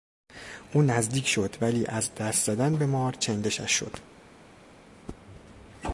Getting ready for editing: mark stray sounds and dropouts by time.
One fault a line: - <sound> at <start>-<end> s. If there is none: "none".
none